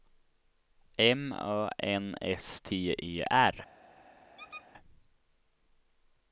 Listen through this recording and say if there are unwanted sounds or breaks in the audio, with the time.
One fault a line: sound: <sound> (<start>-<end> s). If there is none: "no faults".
sound: squeak (4.4-4.7 s)